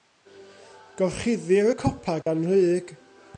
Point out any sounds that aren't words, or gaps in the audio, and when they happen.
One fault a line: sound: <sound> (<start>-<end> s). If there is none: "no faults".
sound: dropout (2.2-2.3 s)